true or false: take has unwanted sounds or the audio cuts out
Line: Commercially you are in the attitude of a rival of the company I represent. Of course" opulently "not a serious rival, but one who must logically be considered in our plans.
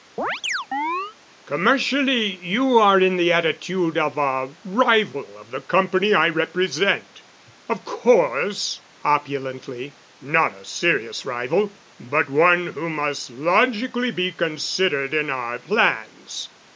true